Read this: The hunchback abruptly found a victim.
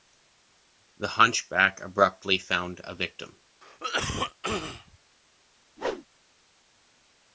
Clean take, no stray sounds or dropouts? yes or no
no